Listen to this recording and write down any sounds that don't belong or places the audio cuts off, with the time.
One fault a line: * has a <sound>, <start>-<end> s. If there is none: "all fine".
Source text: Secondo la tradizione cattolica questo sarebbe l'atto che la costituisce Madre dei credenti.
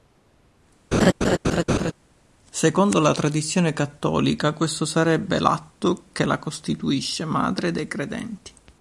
* has a laugh, 0.9-1.9 s